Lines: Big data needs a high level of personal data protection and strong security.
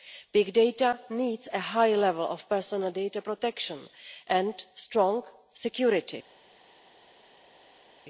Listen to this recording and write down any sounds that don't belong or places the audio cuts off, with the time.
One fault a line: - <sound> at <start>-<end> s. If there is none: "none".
none